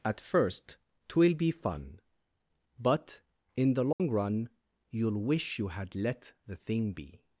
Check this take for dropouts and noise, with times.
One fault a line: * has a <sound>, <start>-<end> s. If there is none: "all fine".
* has a dropout, 3.9-4.0 s